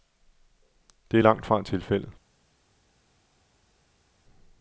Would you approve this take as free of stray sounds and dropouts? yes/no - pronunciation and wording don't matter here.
yes